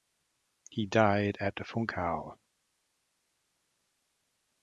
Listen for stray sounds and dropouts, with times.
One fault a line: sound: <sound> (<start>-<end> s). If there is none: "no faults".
no faults